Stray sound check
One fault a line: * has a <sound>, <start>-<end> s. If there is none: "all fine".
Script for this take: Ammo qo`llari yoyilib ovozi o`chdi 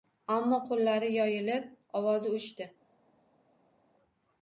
all fine